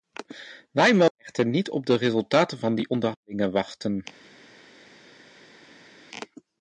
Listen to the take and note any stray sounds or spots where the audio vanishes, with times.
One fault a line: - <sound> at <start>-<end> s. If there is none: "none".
none